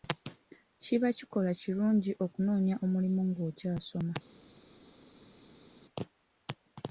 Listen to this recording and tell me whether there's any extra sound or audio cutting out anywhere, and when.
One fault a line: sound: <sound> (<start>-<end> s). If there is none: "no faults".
no faults